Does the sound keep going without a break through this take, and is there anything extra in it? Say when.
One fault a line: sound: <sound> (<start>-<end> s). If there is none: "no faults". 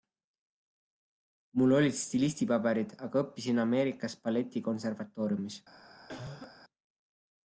sound: cough (6.1-6.5 s)